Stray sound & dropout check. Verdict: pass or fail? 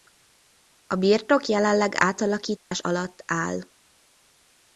fail